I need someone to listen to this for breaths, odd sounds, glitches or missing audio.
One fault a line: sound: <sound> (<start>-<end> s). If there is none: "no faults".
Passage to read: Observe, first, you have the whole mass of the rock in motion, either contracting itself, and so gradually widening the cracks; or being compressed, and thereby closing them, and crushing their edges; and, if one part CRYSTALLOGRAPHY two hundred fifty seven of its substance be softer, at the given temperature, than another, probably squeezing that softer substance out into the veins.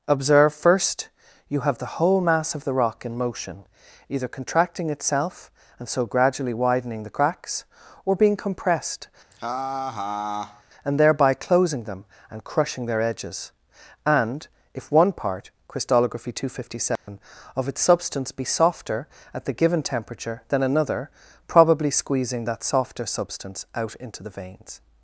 sound: laugh (9.3-10.6 s)
sound: dropout (17.0-17.1 s)